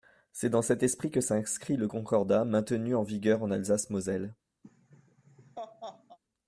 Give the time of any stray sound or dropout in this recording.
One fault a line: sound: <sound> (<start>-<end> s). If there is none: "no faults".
sound: laugh (4.6-6.2 s)